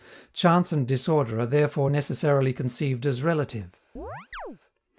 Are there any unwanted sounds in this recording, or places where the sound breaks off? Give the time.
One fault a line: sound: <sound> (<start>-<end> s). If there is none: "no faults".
sound: chirp (4.0-4.6 s)